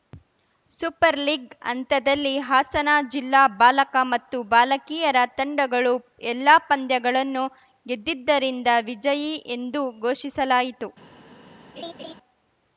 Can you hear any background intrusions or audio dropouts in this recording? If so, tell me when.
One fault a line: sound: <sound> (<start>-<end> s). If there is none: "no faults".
sound: laugh (11.8-12.1 s)